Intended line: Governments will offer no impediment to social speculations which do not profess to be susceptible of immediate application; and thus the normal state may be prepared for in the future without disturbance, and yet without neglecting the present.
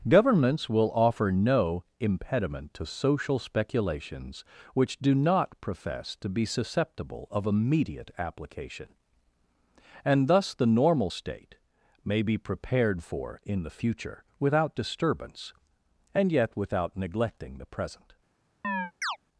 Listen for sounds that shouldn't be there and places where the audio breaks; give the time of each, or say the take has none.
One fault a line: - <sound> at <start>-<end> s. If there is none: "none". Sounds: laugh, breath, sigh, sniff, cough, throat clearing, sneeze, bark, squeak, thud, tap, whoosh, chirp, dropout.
- chirp at 18.6-19.2 s